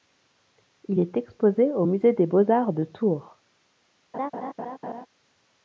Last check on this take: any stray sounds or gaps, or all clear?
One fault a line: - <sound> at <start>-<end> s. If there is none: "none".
- laugh at 4.1-5.1 s